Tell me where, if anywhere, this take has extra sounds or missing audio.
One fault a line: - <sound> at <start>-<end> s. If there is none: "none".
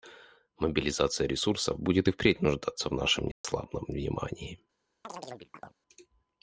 - dropout at 3.3-3.4 s
- chirp at 5.0-5.8 s